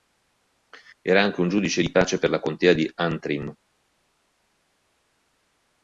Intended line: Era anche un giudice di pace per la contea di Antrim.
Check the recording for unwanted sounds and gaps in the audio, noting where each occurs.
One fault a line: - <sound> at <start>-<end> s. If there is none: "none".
none